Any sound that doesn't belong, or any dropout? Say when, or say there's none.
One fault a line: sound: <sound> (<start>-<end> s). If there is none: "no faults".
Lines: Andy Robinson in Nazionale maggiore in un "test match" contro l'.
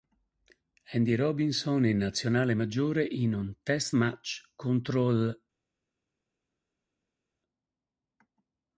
no faults